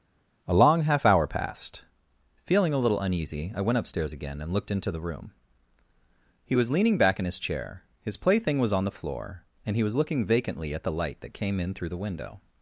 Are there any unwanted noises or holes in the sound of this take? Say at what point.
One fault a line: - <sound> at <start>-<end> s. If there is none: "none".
none